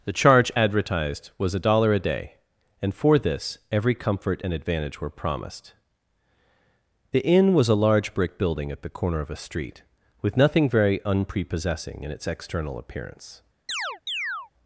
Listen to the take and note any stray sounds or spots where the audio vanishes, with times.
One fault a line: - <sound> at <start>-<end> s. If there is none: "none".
- chirp at 13.7-14.5 s